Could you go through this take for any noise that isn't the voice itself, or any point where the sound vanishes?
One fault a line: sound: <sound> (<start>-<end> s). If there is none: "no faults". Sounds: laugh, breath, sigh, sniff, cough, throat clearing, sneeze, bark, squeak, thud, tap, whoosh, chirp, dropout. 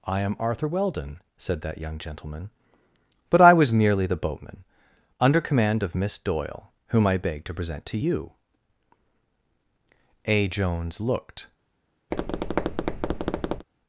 sound: tap (12.1-13.7 s)